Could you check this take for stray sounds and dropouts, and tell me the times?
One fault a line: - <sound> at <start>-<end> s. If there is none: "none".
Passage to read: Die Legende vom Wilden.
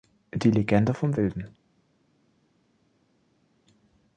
none